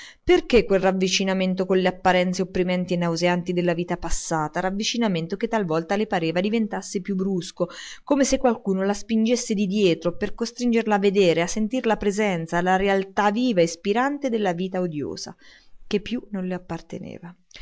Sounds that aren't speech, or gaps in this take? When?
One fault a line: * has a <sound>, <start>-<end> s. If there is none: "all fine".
all fine